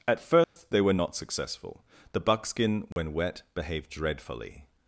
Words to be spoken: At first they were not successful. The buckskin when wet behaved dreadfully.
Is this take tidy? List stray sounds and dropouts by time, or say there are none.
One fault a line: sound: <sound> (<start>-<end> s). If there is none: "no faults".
sound: dropout (0.4-0.6 s)
sound: dropout (2.9-3.0 s)